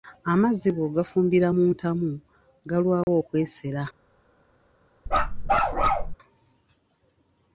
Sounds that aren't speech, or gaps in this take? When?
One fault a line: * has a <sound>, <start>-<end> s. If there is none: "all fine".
* has a dropout, 3.0-3.1 s
* has a bark, 5.1-6.2 s